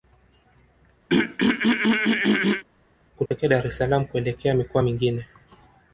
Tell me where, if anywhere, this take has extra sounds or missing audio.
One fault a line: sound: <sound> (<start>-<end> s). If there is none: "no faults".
sound: throat clearing (1.1-2.6 s)
sound: dropout (3.3-3.3 s)